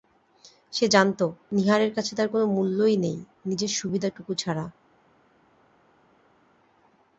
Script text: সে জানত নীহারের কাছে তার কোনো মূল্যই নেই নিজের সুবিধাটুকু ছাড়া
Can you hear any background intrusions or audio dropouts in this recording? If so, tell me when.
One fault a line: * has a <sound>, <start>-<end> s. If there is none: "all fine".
all fine